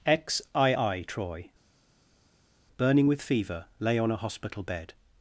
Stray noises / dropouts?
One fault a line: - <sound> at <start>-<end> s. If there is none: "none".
none